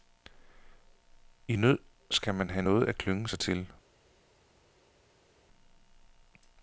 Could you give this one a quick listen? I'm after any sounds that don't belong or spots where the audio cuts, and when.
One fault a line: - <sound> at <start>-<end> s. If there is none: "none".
none